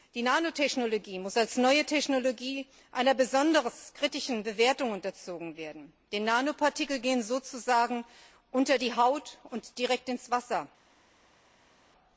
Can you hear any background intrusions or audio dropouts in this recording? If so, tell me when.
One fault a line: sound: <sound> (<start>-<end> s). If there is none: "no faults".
no faults